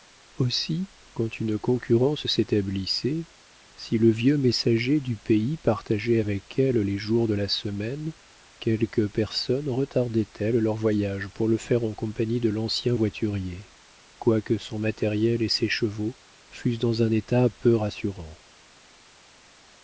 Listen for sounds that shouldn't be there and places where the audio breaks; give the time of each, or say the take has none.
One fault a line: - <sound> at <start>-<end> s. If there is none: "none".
none